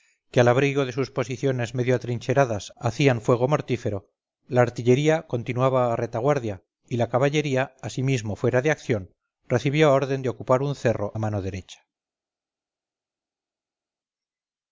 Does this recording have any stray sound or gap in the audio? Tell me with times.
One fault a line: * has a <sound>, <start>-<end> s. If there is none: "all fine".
all fine